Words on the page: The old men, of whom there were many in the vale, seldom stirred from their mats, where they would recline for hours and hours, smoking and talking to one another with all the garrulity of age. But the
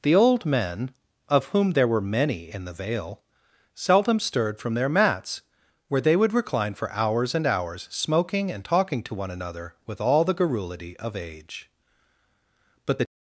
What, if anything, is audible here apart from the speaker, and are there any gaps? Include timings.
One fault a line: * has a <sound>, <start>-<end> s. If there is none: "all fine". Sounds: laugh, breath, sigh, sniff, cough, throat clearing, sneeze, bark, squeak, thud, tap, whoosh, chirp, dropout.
all fine